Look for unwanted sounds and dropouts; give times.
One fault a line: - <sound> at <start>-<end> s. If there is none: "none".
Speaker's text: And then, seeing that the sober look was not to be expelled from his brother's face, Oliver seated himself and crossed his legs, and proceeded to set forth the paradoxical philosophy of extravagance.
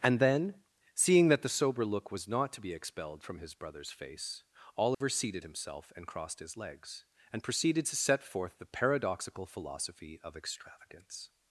- dropout at 4.9-5.0 s